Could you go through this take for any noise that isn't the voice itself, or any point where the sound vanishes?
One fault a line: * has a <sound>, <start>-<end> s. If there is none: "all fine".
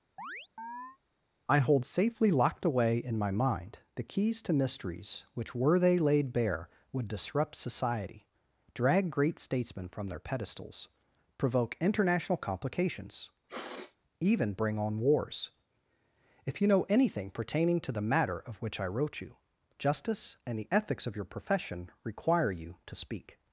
* has a chirp, 0.2-1.0 s
* has a sniff, 13.5-14.0 s